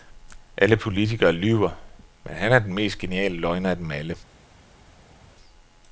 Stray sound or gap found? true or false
false